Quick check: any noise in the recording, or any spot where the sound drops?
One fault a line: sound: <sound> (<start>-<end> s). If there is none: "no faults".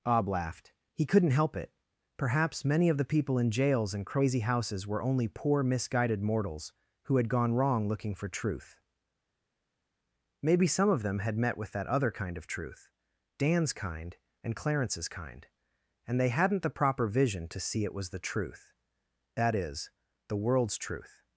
no faults